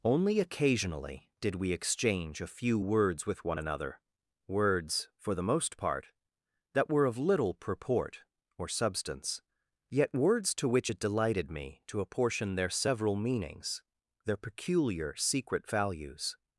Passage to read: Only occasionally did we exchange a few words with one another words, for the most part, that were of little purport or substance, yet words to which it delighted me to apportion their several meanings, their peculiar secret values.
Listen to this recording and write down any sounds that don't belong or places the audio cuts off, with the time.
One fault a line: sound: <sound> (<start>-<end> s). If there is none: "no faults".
no faults